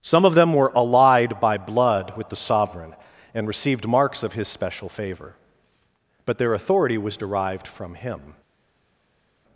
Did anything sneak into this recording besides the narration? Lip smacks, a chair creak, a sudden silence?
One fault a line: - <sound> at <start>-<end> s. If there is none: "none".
none